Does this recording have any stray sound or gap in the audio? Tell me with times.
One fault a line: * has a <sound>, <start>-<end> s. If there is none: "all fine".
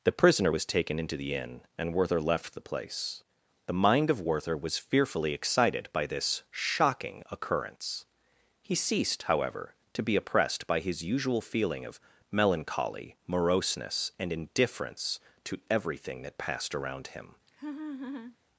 * has a laugh, 17.5-18.4 s